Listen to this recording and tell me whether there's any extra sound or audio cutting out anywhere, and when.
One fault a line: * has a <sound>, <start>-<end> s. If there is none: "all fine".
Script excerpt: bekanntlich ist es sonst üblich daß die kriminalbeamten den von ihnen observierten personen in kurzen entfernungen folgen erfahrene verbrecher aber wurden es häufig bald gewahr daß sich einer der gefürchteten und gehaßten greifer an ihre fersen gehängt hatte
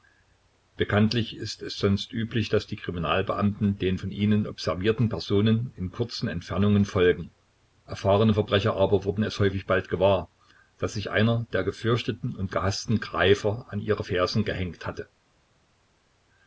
all fine